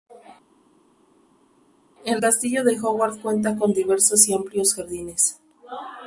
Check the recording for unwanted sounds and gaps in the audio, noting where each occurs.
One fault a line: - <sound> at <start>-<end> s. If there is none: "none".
none